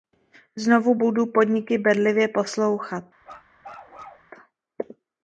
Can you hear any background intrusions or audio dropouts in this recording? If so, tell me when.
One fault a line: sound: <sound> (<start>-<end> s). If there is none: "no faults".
sound: bark (3.2-4.3 s)